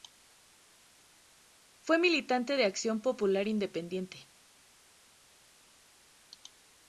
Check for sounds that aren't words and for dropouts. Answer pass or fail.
pass